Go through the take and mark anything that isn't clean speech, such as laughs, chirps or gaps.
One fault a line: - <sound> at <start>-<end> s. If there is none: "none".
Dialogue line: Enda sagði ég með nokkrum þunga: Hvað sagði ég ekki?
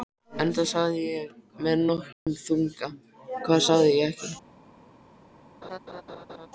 - dropout at 2.1-2.3 s
- laugh at 5.6-6.5 s